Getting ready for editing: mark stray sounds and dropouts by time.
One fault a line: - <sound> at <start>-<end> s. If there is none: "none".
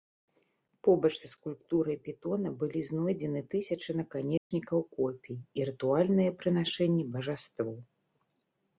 - dropout at 4.4-4.5 s